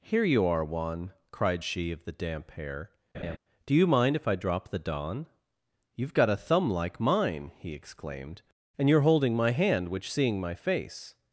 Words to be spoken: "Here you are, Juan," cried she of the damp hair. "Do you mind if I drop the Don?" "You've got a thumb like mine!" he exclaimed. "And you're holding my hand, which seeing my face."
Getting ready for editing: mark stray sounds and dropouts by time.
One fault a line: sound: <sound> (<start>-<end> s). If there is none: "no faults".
sound: laugh (3.1-3.4 s)